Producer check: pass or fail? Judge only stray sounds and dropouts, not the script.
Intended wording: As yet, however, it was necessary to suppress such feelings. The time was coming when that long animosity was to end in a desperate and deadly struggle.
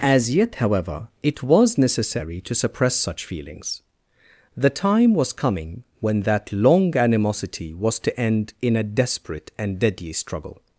pass